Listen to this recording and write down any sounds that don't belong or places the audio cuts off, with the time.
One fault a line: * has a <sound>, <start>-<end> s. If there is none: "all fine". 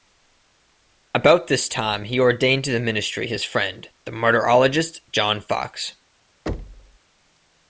* has a thud, 6.5-7.0 s